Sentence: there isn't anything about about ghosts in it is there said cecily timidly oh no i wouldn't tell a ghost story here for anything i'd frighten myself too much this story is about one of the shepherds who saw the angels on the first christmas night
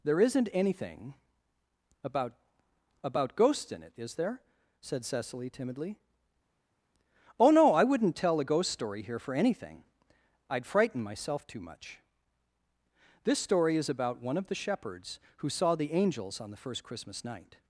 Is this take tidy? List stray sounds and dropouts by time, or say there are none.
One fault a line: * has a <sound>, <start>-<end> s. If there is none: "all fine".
all fine